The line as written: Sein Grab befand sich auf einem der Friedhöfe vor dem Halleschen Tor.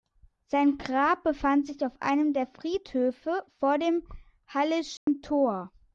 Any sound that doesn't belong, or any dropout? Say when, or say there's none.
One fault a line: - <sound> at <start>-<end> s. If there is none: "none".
- dropout at 5.0-5.1 s